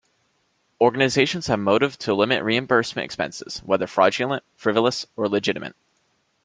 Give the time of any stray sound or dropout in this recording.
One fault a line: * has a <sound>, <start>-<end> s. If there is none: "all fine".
all fine